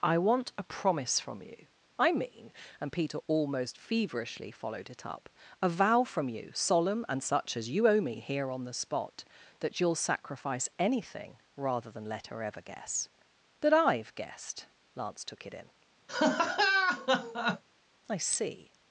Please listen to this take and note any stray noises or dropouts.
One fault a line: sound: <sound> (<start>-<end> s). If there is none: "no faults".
sound: laugh (16.1-17.6 s)